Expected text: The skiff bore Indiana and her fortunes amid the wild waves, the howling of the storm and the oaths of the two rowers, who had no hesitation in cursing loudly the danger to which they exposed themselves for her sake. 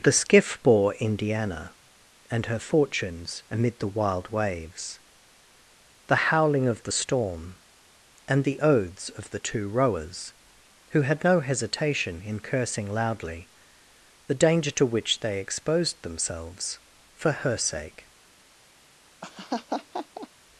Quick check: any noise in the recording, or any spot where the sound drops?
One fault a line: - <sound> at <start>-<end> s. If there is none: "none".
- laugh at 19.2-20.3 s